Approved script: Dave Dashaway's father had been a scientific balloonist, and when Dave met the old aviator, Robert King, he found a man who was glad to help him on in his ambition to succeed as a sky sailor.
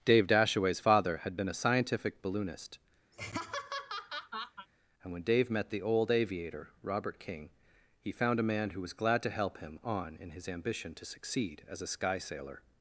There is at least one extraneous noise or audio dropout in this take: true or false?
true